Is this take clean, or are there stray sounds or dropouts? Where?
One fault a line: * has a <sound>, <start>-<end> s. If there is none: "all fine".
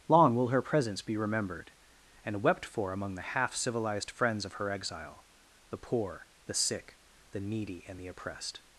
all fine